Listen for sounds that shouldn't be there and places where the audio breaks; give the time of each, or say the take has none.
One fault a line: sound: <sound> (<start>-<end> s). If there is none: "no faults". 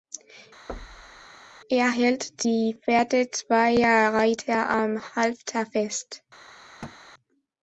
sound: thud (0.7-1.3 s)
sound: thud (6.8-7.0 s)